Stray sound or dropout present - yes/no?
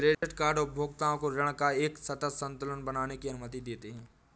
yes